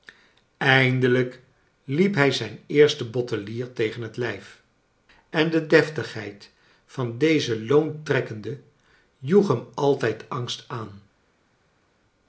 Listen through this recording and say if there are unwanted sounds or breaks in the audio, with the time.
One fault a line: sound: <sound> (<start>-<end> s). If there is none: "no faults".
no faults